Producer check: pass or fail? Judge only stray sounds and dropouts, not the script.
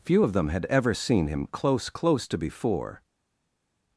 pass